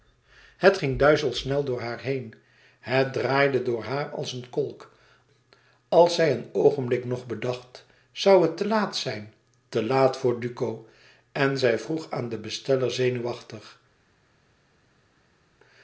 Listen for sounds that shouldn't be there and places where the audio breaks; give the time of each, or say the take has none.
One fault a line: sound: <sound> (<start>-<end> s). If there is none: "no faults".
no faults